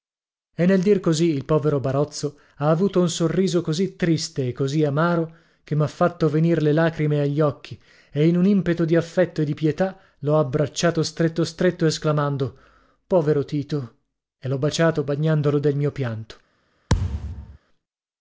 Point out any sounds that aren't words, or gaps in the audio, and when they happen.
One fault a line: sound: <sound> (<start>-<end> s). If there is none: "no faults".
sound: thud (16.9-17.6 s)